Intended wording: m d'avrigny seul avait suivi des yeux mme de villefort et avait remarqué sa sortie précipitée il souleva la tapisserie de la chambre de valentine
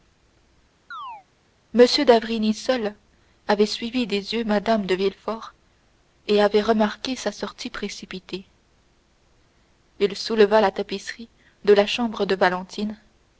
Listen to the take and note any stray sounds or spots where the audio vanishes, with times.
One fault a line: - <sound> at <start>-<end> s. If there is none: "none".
- chirp at 0.9-1.3 s